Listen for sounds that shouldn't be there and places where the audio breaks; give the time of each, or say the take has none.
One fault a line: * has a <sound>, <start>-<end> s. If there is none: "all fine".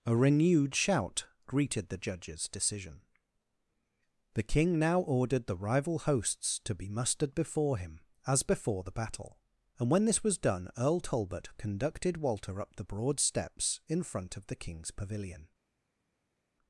all fine